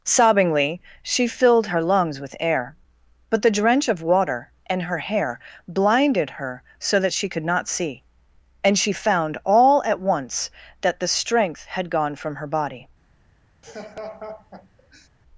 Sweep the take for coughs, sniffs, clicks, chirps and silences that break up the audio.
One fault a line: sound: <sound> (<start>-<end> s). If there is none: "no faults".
sound: laugh (13.6-15.1 s)